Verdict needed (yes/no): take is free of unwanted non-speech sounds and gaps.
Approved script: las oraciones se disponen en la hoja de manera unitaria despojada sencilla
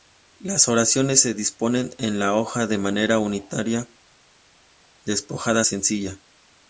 yes